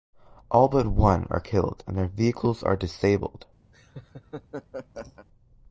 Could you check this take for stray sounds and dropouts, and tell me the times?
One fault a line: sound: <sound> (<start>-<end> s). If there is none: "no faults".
sound: laugh (3.7-5.3 s)